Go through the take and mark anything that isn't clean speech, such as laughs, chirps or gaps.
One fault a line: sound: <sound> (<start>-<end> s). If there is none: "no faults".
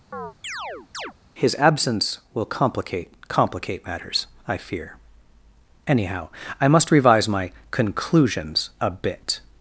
sound: chirp (0.1-1.1 s)